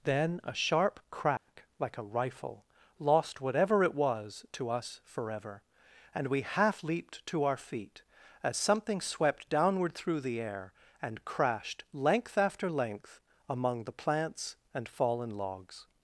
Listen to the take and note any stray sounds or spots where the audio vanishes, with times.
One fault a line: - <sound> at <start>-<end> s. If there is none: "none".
- dropout at 1.4-1.5 s